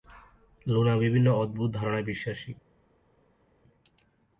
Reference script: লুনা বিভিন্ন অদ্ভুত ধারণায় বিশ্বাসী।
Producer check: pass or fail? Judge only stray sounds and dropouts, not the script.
pass